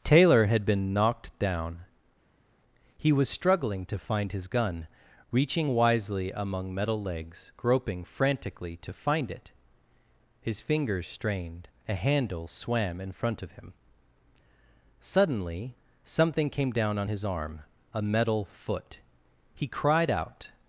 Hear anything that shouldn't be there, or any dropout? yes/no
no